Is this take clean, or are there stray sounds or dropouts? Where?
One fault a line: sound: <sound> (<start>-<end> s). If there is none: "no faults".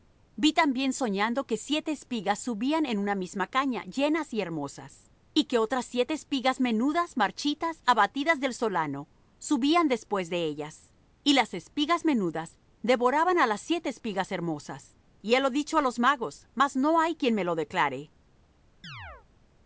sound: chirp (18.8-19.3 s)